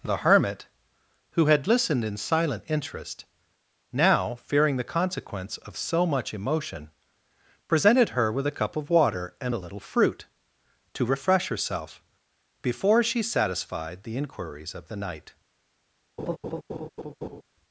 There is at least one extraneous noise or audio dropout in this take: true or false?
true